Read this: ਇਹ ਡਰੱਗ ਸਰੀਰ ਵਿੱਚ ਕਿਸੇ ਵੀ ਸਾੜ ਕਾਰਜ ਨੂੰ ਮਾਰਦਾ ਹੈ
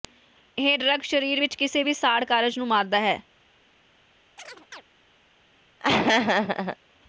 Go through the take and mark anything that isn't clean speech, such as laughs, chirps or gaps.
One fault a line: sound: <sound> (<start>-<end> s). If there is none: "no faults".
sound: chirp (4.4-4.8 s)
sound: laugh (5.8-6.8 s)